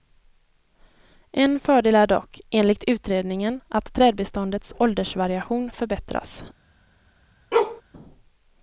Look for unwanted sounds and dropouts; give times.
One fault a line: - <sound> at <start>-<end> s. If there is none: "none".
- bark at 7.5-7.8 s